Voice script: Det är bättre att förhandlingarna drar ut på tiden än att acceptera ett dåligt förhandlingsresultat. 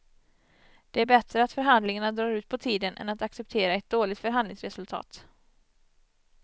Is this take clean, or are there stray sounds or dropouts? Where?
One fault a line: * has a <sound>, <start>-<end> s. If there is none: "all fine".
all fine